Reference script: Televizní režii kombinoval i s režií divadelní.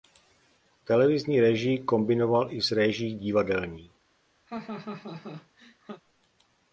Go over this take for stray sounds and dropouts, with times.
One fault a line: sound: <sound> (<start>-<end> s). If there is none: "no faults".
sound: laugh (4.5-6.0 s)